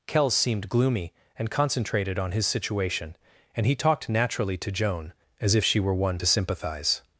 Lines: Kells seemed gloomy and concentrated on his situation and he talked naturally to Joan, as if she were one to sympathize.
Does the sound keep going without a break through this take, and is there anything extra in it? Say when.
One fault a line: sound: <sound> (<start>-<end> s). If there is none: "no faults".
no faults